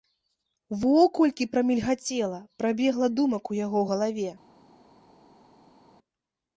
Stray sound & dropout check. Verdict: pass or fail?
pass